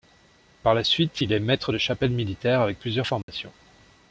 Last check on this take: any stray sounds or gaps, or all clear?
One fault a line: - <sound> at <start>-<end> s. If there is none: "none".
- dropout at 3.2-3.3 s